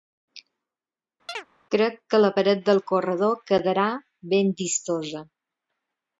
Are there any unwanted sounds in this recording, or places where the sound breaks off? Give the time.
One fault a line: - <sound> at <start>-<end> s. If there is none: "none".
- chirp at 1.3-1.5 s